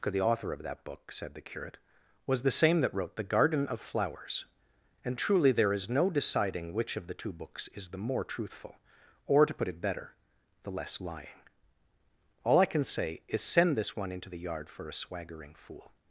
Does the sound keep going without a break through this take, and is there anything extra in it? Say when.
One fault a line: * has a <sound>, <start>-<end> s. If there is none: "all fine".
all fine